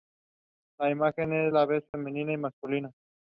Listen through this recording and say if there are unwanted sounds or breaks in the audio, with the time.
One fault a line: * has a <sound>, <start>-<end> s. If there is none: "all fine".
* has a dropout, 1.9-1.9 s